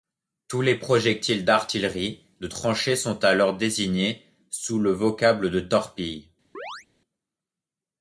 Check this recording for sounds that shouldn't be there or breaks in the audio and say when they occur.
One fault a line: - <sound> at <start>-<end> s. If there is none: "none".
- chirp at 6.5-6.9 s